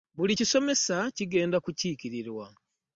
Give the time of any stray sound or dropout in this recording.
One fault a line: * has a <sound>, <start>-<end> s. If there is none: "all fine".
all fine